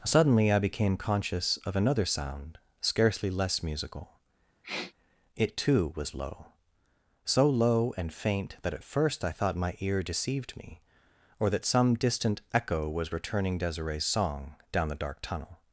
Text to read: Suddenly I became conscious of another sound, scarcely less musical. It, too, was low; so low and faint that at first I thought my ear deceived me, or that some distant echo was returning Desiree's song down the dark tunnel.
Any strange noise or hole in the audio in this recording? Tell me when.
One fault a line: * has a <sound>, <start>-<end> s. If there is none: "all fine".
* has a sniff, 4.6-4.9 s